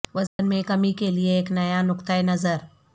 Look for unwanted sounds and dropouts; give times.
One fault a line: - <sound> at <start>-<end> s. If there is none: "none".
- dropout at 0.3-0.4 s